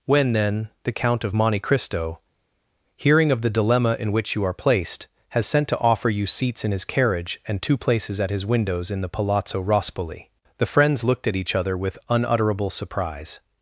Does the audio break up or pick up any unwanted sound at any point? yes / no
no